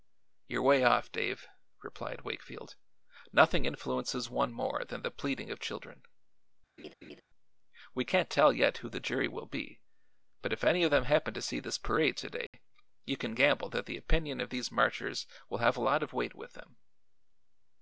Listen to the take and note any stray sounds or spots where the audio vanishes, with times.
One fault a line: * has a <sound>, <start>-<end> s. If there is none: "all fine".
* has a laugh, 6.8-7.2 s
* has a dropout, 12.5-12.5 s